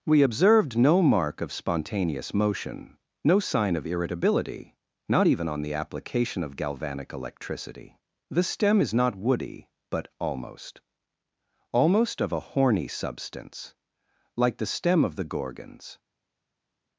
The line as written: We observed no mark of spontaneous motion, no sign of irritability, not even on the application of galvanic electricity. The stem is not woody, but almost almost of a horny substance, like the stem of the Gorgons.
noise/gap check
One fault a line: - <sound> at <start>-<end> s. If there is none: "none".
none